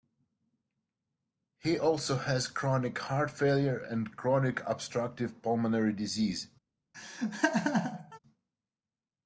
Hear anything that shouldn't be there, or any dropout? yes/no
yes